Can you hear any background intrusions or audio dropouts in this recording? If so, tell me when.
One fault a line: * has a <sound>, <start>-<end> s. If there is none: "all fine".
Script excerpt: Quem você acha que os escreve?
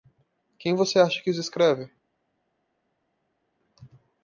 all fine